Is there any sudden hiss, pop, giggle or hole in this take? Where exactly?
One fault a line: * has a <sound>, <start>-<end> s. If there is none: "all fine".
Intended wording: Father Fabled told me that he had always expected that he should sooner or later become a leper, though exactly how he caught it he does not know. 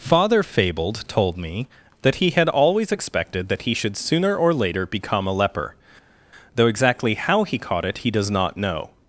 all fine